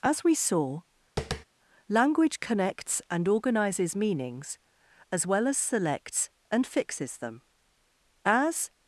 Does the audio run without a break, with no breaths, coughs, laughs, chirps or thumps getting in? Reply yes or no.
no